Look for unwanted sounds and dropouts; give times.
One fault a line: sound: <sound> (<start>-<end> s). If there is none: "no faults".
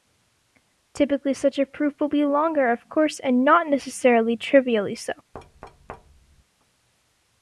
sound: thud (5.3-6.4 s)